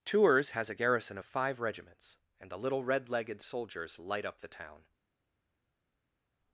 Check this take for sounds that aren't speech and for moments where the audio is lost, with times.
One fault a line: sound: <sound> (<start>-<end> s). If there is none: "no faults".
no faults